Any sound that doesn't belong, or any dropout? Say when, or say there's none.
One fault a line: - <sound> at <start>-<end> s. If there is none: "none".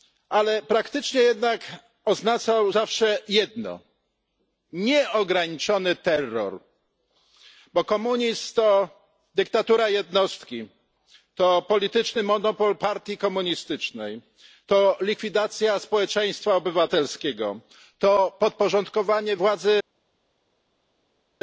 none